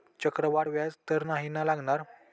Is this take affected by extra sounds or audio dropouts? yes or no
no